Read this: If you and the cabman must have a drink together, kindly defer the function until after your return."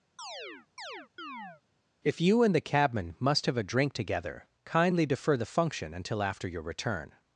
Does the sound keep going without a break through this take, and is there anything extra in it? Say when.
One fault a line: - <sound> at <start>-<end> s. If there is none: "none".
- chirp at 0.2-1.6 s